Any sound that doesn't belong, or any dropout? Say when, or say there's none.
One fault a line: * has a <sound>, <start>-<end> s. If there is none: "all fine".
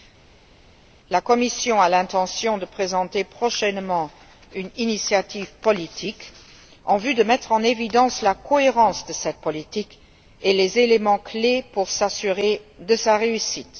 all fine